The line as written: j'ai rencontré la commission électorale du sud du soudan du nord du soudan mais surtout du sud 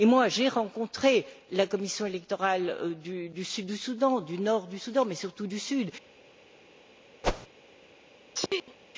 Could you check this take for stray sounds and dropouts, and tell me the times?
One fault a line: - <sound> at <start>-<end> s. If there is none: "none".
- whoosh at 7.2-7.5 s
- sneeze at 8.3-8.8 s